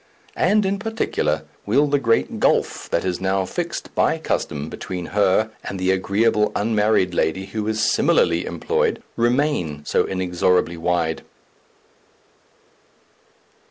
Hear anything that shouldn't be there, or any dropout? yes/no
no